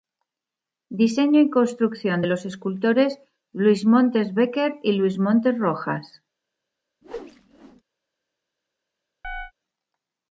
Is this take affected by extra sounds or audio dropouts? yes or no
yes